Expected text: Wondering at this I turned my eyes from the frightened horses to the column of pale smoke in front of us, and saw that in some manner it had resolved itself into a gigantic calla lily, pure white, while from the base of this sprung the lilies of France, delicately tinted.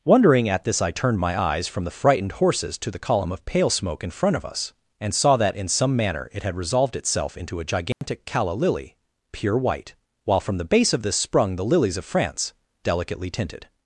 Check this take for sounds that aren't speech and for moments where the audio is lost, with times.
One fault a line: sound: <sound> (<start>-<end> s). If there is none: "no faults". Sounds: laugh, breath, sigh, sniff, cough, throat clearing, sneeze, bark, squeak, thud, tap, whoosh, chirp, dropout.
sound: dropout (7.9-8.0 s)